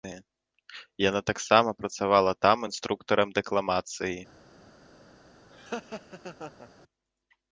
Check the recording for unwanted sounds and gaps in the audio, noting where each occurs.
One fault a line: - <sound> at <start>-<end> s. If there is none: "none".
- laugh at 5.5-6.7 s